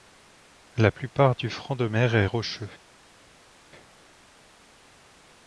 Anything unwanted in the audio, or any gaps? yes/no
no